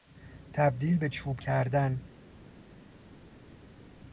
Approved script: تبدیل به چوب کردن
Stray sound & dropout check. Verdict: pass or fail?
pass